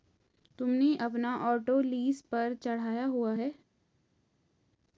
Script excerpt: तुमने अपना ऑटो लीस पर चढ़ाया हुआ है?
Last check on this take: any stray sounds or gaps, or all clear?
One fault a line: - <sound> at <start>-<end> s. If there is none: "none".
none